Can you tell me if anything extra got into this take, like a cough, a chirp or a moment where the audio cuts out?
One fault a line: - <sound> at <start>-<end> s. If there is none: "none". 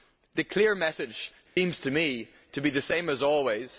- dropout at 1.5-1.6 s